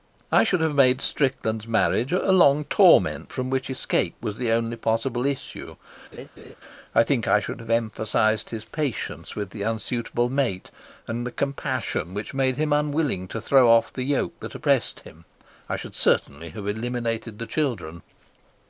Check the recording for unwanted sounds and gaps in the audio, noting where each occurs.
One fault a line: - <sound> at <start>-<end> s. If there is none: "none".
- laugh at 6.1-6.6 s